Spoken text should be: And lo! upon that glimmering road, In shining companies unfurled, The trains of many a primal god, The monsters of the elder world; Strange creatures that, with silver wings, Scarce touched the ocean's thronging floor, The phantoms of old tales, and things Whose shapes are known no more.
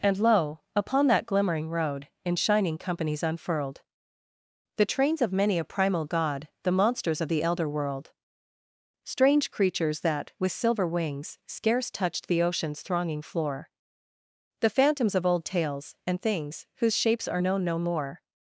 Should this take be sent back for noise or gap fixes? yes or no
no